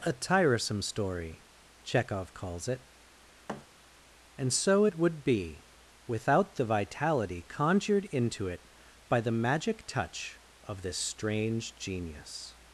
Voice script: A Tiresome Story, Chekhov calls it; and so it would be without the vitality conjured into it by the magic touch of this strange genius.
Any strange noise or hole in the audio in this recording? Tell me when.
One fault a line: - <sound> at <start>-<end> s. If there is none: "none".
- thud at 3.5-3.7 s